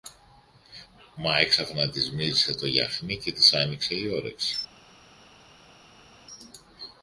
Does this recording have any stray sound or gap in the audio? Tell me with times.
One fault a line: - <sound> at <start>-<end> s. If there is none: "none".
none